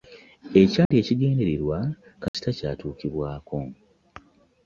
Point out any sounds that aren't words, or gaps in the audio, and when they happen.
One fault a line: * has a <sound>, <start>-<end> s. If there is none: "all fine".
* has a dropout, 0.9-0.9 s
* has a dropout, 2.3-2.3 s